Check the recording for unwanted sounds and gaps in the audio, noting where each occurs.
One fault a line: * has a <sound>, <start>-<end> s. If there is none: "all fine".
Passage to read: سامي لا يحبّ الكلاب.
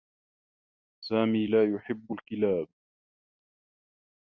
all fine